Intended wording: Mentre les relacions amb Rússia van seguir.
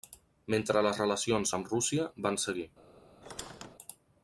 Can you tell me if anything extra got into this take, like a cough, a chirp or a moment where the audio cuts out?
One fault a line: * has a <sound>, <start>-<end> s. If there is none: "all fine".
* has a squeak, 3.2-3.8 s